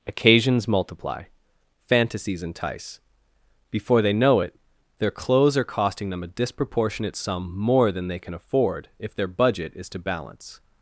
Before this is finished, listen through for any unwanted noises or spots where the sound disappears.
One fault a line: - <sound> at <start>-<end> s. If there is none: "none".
none